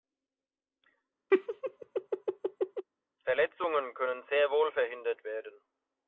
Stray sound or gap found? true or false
true